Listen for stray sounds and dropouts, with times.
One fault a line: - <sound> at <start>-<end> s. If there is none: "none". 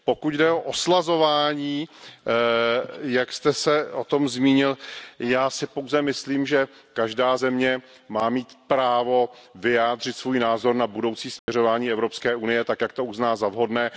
- dropout at 11.4-11.5 s